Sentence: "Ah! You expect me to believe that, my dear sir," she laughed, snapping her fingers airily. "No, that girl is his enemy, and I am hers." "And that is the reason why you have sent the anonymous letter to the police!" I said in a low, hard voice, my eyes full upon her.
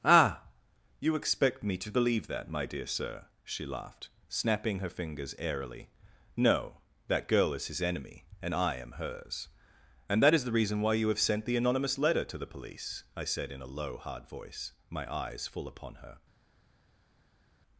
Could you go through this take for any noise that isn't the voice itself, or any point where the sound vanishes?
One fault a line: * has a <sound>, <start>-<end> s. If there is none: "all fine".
all fine